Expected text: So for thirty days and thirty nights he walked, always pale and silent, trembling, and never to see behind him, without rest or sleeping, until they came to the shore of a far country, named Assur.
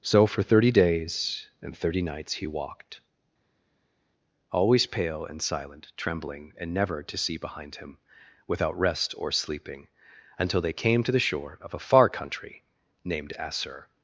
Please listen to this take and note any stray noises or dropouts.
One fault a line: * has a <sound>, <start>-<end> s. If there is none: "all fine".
all fine